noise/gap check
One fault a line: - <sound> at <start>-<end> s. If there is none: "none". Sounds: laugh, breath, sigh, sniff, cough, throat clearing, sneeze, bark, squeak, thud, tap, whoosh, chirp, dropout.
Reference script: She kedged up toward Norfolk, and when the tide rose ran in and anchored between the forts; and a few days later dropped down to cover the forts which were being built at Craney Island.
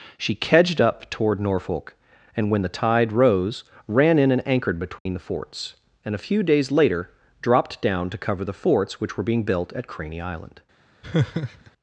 - dropout at 5.0-5.1 s
- laugh at 11.0-11.7 s